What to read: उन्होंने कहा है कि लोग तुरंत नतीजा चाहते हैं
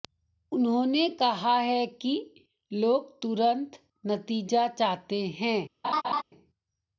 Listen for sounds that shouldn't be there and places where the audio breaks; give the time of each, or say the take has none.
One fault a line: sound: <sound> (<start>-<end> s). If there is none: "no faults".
sound: laugh (5.8-6.2 s)